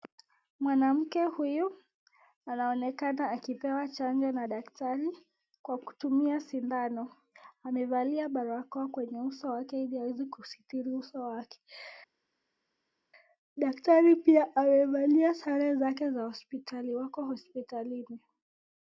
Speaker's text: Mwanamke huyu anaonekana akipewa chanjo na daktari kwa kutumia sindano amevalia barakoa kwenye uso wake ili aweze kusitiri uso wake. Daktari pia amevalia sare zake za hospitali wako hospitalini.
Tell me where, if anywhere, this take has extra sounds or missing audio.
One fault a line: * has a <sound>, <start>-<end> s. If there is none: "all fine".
all fine